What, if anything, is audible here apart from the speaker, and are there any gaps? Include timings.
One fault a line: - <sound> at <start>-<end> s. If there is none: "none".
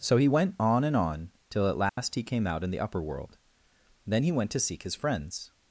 - dropout at 1.9-2.0 s